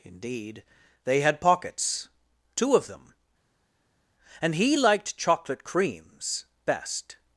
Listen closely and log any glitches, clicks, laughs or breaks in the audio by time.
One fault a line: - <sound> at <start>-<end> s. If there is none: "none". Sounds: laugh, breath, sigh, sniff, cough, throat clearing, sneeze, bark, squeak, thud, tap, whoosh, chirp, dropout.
none